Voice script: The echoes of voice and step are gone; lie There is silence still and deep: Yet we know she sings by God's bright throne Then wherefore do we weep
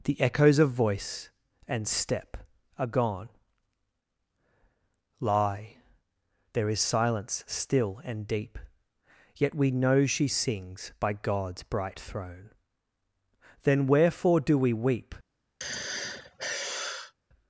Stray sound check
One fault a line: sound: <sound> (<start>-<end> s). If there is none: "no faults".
sound: sigh (15.6-17.1 s)